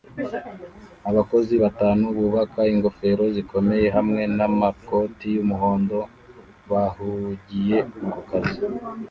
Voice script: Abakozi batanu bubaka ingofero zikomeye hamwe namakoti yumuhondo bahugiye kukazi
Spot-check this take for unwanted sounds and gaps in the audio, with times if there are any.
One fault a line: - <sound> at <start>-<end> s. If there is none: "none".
none